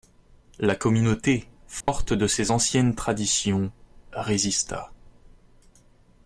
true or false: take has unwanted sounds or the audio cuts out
true